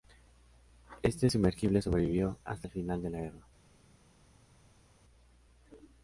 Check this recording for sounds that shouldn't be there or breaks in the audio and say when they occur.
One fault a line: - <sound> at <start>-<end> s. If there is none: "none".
none